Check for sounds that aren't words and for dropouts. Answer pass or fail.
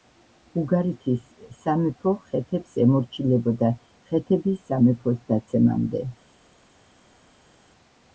pass